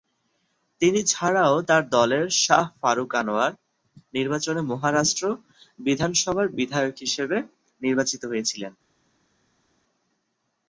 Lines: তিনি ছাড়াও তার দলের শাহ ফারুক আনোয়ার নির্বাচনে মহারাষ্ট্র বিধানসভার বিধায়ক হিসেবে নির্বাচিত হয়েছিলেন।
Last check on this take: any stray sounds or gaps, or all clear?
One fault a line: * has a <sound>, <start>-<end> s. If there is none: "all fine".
all fine